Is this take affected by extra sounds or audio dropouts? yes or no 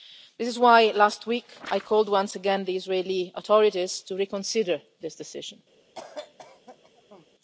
yes